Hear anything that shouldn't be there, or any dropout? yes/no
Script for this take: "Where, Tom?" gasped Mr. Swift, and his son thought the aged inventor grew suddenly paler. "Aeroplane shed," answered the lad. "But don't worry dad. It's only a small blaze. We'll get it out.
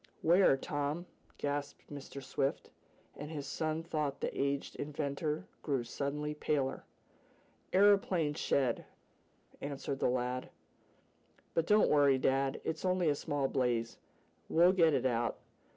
no